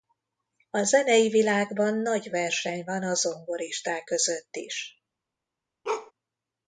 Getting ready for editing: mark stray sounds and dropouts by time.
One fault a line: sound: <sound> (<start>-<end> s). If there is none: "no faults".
sound: bark (5.8-6.1 s)